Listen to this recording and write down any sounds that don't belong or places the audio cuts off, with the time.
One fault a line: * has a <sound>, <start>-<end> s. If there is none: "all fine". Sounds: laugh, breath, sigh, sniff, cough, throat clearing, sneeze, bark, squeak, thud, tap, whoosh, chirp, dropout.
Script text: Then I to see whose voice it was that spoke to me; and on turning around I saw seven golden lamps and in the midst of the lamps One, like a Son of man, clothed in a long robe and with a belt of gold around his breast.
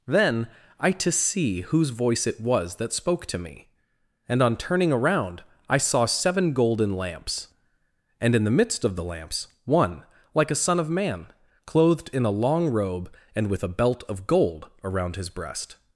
all fine